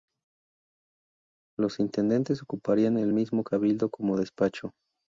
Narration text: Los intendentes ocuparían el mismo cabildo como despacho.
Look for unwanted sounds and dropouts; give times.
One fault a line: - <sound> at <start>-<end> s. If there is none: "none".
none